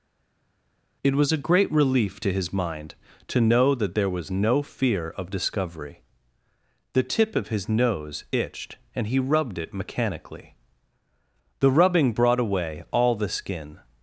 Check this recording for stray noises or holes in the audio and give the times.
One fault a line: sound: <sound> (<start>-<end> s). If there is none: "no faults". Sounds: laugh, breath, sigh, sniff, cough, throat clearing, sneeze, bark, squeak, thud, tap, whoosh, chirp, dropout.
no faults